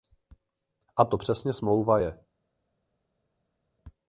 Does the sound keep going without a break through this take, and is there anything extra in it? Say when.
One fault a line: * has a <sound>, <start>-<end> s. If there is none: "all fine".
all fine